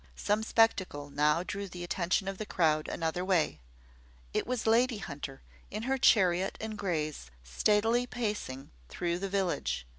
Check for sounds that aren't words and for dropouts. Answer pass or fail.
pass